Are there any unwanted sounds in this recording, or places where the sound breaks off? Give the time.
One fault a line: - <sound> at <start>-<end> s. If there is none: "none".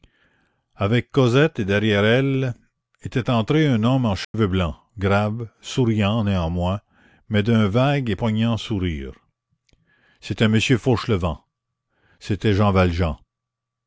- dropout at 4.2-4.3 s